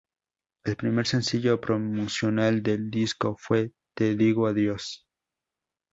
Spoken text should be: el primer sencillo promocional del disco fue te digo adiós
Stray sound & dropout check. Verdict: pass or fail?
pass